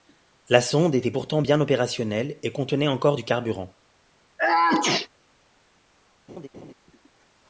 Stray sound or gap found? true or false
true